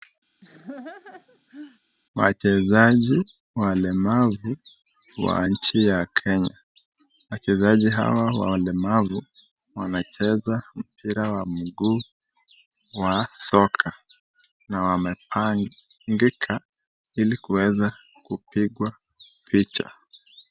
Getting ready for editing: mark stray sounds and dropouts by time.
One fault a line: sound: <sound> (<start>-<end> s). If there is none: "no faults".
sound: laugh (0.4-1.8 s)